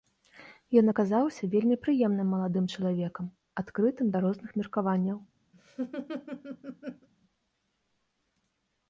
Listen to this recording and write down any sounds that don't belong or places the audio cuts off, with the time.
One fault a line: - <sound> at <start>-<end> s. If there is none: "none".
- laugh at 5.5-7.1 s